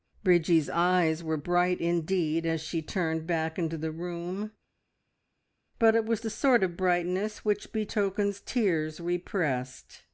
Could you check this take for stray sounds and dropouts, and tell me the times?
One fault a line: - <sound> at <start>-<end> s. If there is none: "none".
none